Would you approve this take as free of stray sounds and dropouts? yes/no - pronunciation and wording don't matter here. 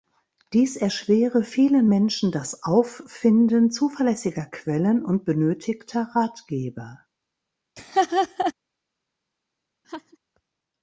no